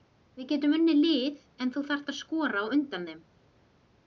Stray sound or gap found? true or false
false